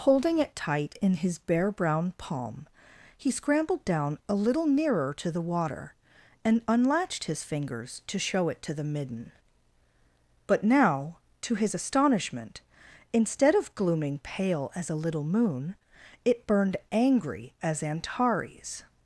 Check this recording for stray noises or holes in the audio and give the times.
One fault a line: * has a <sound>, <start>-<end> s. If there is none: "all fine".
all fine